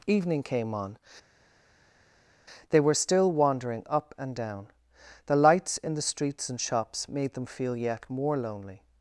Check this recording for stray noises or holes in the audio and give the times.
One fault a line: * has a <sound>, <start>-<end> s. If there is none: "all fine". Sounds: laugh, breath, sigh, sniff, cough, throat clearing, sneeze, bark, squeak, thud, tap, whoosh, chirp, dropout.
all fine